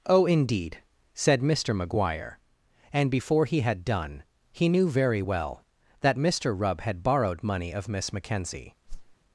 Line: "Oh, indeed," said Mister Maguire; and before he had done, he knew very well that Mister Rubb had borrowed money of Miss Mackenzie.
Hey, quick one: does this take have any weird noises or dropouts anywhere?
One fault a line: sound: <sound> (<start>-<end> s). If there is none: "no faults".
sound: whoosh (8.9-9.2 s)